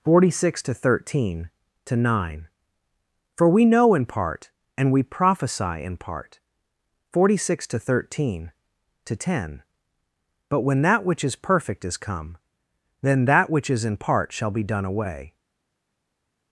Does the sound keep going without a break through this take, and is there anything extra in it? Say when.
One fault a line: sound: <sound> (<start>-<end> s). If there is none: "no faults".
no faults